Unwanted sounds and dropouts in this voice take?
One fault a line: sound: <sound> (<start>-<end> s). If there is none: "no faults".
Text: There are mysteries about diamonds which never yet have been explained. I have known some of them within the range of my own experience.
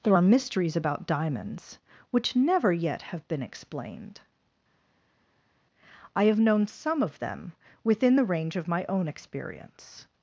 no faults